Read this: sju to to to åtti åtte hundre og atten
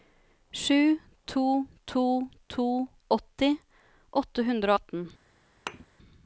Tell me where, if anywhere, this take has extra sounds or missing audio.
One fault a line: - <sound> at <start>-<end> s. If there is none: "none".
- thud at 5.7-5.9 s